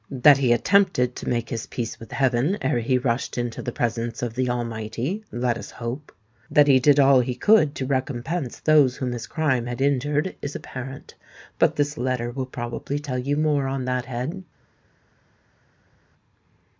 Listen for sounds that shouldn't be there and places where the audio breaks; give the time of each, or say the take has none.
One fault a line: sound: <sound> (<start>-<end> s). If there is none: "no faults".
no faults